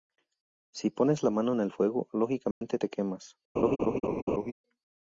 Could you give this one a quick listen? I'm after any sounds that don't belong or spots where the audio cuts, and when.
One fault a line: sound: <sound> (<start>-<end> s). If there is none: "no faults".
sound: dropout (2.5-2.6 s)
sound: laugh (3.6-4.5 s)